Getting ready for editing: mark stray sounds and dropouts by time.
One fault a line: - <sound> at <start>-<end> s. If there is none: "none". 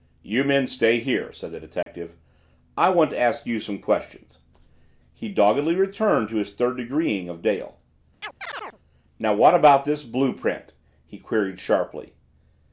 - dropout at 1.8-1.9 s
- chirp at 8.2-8.8 s